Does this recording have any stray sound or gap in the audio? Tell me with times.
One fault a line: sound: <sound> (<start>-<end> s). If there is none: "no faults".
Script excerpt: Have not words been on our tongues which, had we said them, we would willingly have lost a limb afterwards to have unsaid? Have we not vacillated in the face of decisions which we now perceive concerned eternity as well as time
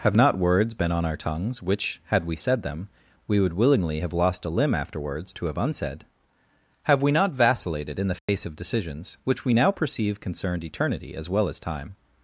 sound: dropout (8.2-8.3 s)